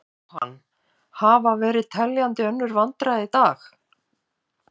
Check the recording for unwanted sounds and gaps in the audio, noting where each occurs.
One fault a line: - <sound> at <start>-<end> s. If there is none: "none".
- dropout at 0.4-0.4 s